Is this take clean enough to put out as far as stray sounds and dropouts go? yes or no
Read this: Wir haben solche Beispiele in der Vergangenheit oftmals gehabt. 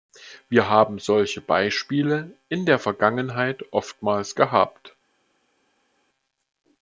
yes